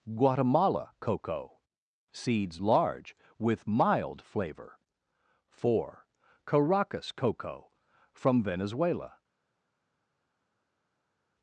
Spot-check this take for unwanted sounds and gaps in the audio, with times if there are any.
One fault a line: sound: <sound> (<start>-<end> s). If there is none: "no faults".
no faults